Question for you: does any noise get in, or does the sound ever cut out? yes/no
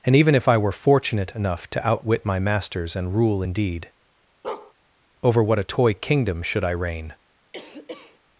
yes